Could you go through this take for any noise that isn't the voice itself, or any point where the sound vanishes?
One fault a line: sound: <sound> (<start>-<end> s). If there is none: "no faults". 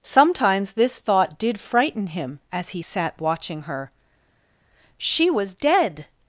no faults